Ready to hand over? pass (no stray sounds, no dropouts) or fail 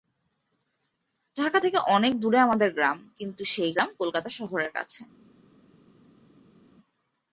pass